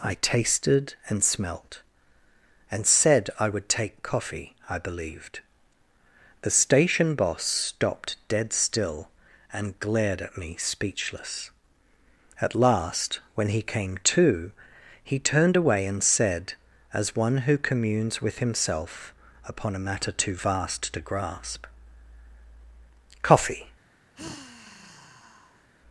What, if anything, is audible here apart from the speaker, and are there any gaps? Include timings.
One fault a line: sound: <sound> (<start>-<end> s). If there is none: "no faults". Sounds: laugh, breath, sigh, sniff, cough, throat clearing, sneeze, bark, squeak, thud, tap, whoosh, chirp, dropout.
sound: sigh (24.1-25.7 s)